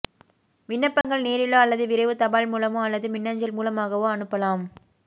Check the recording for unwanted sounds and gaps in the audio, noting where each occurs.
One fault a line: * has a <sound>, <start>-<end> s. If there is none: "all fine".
* has a dropout, 1.0-1.0 s